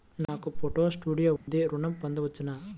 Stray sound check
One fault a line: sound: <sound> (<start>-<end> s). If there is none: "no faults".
sound: dropout (1.4-1.5 s)